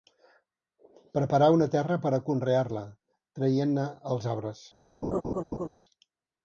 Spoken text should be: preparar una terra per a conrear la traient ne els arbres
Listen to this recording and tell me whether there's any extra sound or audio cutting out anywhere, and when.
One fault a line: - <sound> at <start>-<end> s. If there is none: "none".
- laugh at 5.0-5.7 s